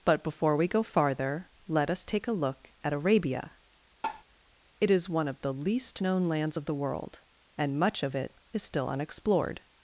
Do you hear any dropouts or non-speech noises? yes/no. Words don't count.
yes